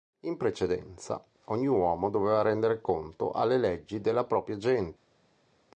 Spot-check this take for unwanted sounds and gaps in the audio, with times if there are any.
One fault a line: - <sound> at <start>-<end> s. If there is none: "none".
none